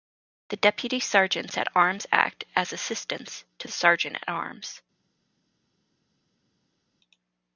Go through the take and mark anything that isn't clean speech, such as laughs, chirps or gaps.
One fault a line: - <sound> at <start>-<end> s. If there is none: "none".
none